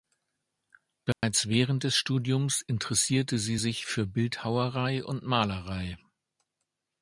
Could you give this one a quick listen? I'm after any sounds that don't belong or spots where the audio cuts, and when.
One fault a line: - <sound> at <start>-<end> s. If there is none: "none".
- dropout at 1.1-1.2 s